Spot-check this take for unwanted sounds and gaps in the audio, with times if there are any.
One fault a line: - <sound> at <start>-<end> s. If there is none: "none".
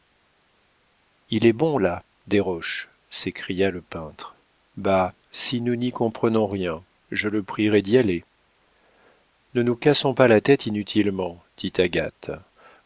none